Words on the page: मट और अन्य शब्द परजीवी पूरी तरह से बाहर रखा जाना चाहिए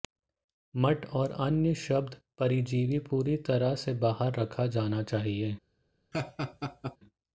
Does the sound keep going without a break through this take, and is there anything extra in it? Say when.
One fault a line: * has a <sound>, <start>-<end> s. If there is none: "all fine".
* has a laugh, 6.1-7.0 s